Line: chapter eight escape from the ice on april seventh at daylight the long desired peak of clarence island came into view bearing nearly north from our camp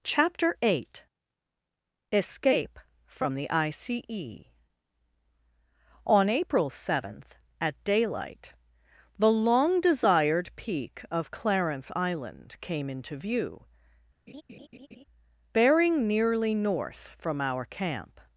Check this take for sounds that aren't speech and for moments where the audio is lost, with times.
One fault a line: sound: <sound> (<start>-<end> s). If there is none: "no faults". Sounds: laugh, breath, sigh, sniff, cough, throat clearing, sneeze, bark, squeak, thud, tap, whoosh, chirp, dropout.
sound: laugh (14.3-15.0 s)